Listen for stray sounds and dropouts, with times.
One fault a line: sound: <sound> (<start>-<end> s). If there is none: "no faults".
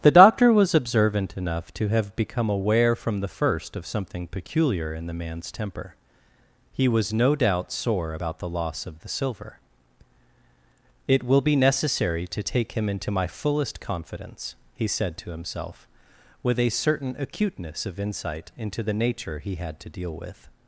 no faults